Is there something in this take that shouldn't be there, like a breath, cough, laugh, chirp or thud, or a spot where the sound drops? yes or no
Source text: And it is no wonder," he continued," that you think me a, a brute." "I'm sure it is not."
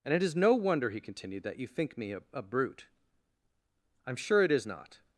no